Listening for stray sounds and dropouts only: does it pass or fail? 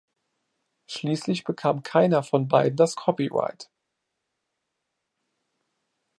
pass